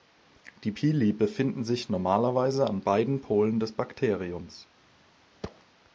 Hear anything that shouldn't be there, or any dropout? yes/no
yes